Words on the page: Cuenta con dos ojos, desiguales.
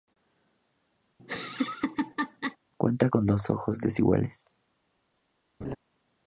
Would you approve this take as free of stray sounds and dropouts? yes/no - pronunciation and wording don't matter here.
no